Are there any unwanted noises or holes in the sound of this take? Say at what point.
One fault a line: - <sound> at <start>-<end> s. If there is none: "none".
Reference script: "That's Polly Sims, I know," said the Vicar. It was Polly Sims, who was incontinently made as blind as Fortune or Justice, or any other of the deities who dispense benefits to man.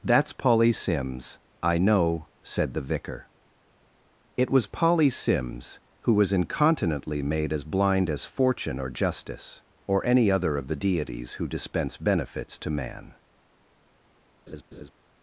- laugh at 14.5-14.9 s